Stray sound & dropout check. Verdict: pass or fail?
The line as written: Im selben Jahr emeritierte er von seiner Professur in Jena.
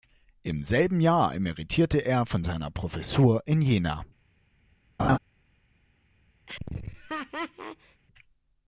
fail